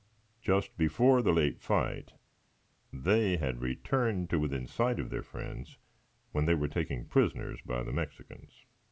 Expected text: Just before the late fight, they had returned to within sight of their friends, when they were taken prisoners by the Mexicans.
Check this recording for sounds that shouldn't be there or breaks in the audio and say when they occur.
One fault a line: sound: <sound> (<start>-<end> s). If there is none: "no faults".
no faults